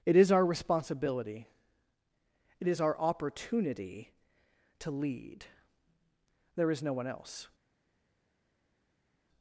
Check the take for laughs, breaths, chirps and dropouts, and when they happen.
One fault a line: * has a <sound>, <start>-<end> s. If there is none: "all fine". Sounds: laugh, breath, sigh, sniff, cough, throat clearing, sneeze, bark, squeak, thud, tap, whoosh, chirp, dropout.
all fine